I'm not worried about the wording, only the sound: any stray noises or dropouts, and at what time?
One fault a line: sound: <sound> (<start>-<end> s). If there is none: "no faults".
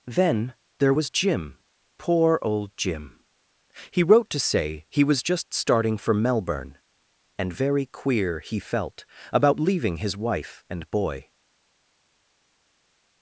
no faults